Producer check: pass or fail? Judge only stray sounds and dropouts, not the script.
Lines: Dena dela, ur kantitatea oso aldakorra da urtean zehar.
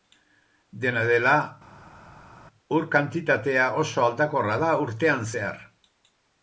pass